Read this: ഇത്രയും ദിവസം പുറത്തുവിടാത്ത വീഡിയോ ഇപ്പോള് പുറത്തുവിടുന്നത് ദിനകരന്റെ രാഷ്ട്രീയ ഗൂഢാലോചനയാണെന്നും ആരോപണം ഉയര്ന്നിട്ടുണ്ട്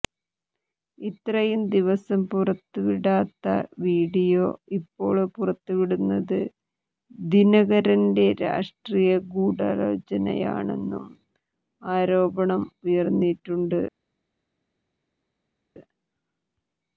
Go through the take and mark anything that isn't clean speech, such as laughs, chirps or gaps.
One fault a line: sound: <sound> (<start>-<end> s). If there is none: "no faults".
no faults